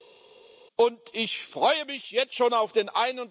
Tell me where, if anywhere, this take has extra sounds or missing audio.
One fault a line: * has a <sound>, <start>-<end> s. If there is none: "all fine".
all fine